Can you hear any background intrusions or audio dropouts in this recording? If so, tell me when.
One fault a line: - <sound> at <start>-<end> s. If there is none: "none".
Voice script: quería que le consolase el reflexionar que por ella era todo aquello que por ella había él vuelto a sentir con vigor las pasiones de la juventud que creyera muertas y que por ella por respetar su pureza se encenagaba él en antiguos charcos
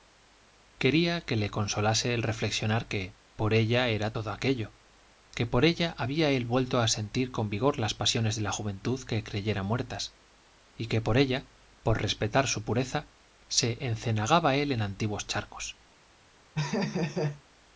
- laugh at 16.5-17.4 s